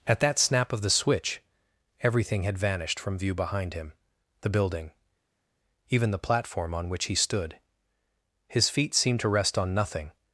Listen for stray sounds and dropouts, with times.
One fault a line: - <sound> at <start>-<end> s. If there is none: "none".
none